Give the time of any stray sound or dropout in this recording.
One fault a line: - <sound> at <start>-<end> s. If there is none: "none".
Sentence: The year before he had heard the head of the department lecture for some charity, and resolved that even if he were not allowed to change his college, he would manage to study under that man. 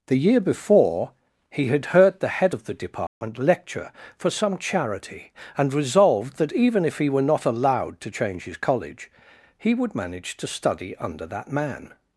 - dropout at 3.1-3.2 s